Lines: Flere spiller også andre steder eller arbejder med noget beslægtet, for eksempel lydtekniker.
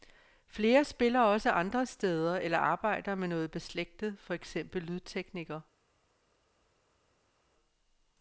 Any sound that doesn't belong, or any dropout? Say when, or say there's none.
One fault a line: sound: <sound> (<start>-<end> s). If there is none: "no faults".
no faults